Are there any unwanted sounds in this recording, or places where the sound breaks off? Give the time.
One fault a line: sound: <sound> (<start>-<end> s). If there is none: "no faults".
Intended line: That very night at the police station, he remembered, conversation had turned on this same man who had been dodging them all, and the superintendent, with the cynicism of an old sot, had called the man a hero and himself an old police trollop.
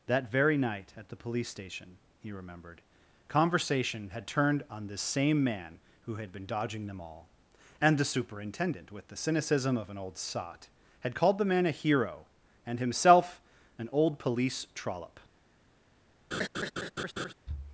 sound: laugh (16.3-17.3 s)